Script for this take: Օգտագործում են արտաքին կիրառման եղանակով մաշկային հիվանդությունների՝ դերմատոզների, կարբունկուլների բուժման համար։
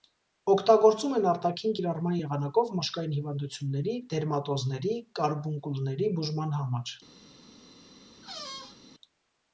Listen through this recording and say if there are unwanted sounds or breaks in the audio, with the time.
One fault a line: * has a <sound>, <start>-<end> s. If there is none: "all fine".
* has a squeak, 8.2-8.8 s